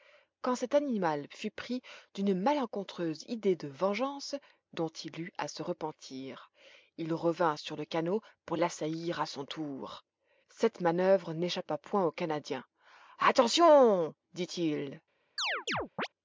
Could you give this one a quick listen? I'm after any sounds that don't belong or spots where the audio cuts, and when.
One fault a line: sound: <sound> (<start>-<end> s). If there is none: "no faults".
sound: chirp (15.4-16.1 s)